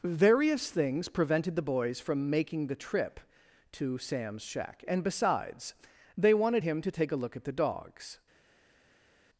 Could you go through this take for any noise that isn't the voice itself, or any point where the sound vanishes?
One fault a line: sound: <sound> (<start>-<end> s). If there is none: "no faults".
no faults